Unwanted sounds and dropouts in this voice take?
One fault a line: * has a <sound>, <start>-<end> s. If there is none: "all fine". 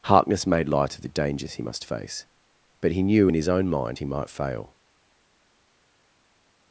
all fine